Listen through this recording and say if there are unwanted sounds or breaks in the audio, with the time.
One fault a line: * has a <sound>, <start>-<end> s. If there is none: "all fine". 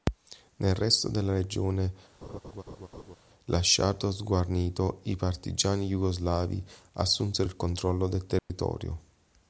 * has a laugh, 2.2-3.2 s
* has a dropout, 8.4-8.5 s